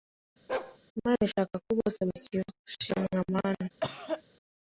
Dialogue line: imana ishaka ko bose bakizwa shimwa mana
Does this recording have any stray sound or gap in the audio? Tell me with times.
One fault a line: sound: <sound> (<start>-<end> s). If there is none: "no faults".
sound: bark (0.5-0.8 s)
sound: cough (3.8-4.2 s)